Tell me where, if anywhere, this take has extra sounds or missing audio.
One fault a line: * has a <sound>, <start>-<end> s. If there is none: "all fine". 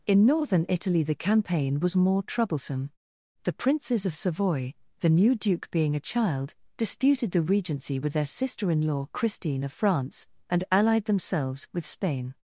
all fine